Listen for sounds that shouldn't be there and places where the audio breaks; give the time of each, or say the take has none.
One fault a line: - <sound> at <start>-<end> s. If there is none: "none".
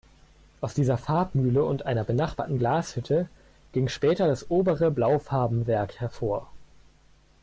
none